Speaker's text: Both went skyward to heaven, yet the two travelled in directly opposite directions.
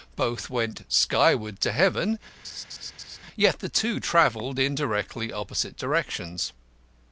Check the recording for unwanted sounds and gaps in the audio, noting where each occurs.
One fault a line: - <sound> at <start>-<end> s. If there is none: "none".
- laugh at 2.4-3.2 s